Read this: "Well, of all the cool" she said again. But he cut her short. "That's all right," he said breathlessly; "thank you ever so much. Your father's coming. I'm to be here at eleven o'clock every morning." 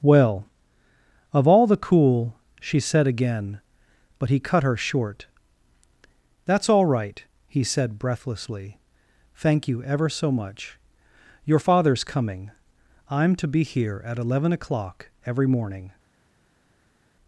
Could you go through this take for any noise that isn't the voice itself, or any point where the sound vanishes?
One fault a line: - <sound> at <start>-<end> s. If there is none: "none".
none